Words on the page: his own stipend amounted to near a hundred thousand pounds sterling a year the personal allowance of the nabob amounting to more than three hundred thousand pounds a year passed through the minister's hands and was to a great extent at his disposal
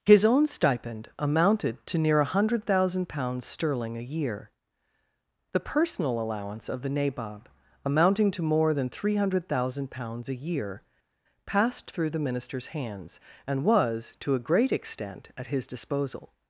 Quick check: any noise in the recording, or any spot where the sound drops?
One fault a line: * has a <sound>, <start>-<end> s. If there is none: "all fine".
all fine